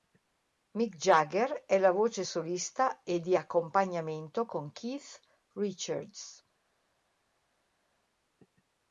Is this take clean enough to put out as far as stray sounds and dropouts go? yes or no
yes